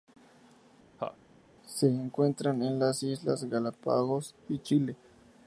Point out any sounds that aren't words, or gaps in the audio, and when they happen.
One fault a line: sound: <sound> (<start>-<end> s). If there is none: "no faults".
sound: laugh (1.0-1.2 s)